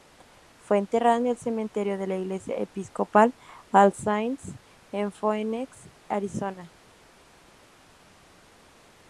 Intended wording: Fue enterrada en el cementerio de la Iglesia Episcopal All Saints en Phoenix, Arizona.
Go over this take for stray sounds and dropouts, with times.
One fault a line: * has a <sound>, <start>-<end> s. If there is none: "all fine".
all fine